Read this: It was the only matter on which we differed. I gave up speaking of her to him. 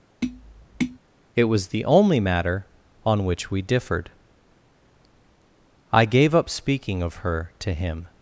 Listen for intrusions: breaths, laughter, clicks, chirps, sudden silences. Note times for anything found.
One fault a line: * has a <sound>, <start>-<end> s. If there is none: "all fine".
* has a tap, 0.2-1.0 s